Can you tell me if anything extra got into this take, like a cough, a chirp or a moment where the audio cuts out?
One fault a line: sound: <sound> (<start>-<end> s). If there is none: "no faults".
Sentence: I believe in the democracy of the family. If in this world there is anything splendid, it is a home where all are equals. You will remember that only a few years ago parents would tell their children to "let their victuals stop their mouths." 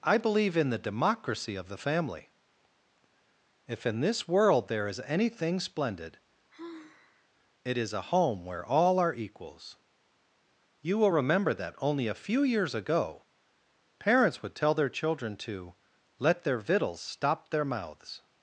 sound: sigh (6.5-7.3 s)